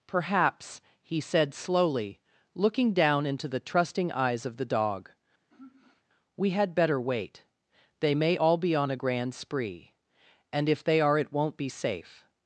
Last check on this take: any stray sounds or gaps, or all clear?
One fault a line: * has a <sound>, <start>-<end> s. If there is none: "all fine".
* has a sigh, 5.5-6.0 s